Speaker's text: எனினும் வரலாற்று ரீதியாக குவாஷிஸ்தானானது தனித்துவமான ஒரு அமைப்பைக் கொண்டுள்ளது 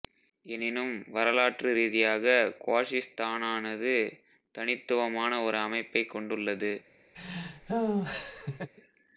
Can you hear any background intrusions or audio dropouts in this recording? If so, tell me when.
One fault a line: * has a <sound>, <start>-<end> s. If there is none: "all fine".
* has a laugh, 7.1-8.7 s